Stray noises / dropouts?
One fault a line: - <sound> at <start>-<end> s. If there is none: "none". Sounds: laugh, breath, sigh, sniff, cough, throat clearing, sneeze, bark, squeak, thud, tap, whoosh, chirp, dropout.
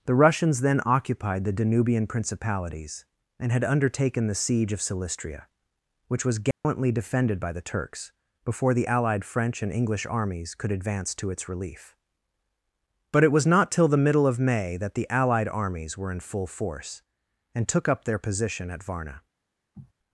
- dropout at 6.5-6.6 s
- sniff at 19.7-19.9 s